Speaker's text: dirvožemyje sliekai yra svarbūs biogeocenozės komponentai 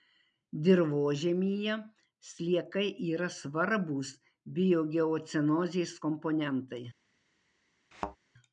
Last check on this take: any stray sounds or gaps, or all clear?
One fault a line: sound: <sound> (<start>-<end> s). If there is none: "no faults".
sound: thud (7.9-8.2 s)